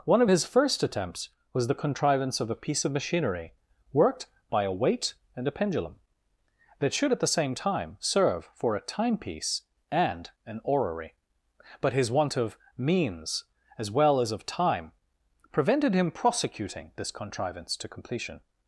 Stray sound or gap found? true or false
false